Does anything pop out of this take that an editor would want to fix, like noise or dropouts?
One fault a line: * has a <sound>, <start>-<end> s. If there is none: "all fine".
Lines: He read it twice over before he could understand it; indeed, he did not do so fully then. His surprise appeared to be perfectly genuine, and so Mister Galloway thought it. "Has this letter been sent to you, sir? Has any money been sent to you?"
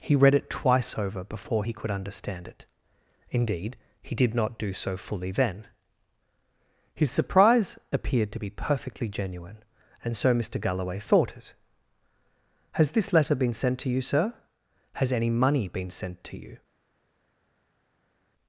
all fine